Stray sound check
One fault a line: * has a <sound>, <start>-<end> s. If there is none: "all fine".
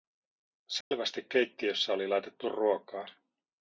* has a dropout, 0.8-0.9 s